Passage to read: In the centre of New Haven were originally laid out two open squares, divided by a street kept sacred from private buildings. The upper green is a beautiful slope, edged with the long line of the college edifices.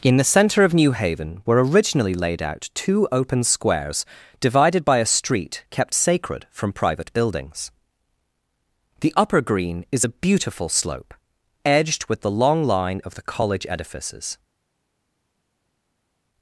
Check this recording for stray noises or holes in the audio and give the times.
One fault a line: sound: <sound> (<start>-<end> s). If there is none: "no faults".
no faults